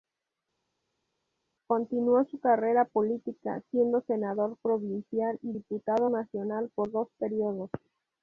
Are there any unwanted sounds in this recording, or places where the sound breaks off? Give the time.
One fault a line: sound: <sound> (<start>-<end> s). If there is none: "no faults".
no faults